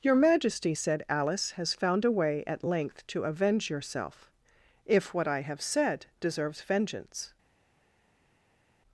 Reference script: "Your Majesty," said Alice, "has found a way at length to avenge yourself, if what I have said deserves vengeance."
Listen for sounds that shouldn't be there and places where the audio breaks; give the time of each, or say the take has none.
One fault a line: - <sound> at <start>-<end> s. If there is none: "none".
none